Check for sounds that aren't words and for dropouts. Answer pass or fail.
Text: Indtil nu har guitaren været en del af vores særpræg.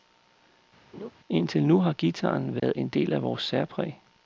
fail